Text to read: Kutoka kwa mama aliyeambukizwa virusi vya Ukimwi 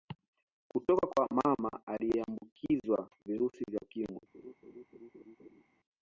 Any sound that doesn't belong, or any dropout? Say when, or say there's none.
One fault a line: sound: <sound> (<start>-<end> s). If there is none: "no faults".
sound: laugh (4.3-5.6 s)